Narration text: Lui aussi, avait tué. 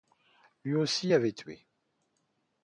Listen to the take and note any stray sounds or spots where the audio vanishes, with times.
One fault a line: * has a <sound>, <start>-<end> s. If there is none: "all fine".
all fine